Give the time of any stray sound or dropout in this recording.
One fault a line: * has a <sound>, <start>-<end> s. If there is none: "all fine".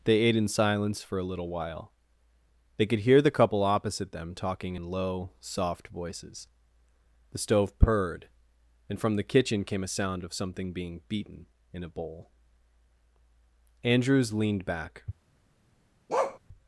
* has a bark, 16.1-16.4 s